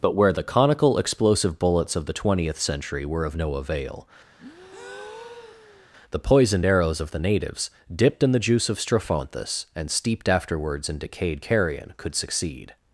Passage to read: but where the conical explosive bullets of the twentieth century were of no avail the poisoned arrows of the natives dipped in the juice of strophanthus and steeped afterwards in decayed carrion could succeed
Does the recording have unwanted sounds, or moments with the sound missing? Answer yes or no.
yes